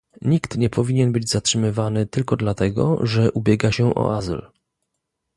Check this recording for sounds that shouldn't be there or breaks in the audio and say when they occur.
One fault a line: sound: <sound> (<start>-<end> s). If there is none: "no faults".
no faults